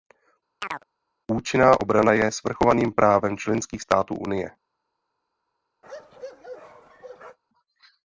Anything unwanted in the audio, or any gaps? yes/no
yes